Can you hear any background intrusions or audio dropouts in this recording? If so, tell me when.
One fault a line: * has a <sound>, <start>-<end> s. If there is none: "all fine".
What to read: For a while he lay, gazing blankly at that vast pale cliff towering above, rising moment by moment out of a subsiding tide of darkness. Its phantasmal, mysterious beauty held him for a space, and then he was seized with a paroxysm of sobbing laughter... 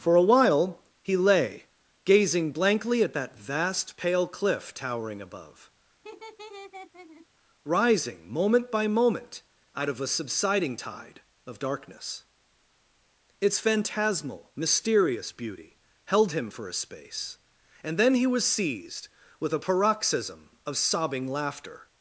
* has a laugh, 6.0-7.3 s